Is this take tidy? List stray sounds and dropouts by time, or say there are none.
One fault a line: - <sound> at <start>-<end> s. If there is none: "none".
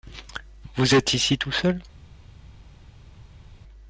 none